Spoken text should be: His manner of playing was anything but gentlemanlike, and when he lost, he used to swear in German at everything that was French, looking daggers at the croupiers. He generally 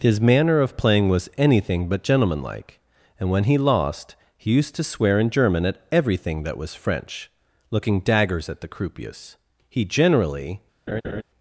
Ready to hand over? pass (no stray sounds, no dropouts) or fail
fail